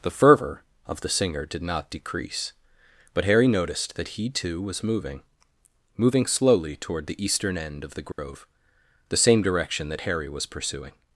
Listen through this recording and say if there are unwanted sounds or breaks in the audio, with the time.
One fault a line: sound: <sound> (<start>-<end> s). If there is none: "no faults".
sound: dropout (8.1-8.2 s)